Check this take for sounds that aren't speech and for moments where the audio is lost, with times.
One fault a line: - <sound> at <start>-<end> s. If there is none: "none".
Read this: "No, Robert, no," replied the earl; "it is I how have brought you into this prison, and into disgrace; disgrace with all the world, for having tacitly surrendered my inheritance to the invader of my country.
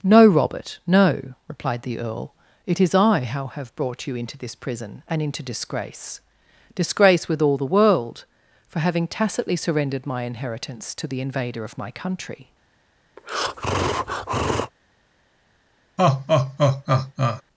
- breath at 13.2-14.7 s
- laugh at 16.0-17.4 s